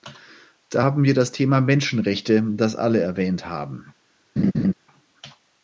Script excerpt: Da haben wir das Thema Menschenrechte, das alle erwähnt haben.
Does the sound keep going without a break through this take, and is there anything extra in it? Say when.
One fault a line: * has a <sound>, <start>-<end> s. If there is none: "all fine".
* has a laugh, 4.4-4.7 s